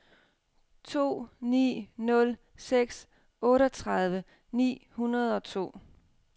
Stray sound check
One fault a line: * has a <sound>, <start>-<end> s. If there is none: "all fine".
all fine